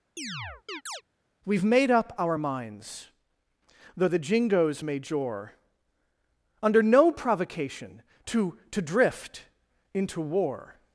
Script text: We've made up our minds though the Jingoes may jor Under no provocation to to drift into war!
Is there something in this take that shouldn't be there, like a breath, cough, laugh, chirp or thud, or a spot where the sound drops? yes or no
yes